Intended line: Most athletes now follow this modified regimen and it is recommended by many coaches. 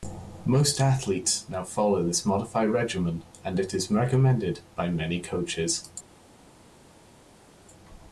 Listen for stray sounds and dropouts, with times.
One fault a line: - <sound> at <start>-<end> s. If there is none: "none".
none